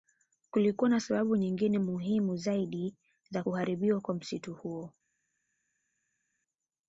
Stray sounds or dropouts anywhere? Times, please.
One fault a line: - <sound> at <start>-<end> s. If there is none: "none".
none